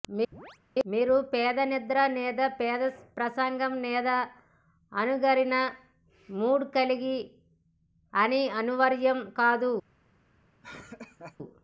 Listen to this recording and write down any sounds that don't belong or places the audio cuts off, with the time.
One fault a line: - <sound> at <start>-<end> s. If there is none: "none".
- chirp at 0.3-0.6 s
- laugh at 10.6-11.4 s